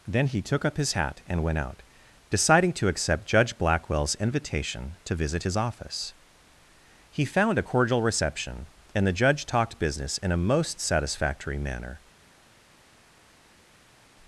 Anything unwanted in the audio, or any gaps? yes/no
no